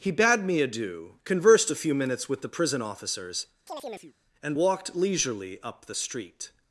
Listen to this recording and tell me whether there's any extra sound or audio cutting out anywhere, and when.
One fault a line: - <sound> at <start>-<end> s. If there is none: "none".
- chirp at 3.7-4.1 s